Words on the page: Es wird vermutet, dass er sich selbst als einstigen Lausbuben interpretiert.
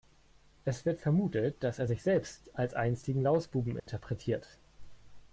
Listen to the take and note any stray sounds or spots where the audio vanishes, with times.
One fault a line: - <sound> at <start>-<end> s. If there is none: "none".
- dropout at 3.8-3.9 s